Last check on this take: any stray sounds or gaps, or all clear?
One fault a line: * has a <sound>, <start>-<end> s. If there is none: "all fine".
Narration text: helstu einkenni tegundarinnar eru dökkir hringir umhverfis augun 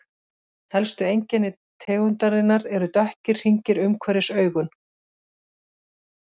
all fine